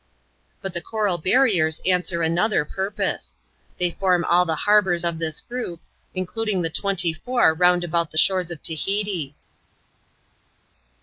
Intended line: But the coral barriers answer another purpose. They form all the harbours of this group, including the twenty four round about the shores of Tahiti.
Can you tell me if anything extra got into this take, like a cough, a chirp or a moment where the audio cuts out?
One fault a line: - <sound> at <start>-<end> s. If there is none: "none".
none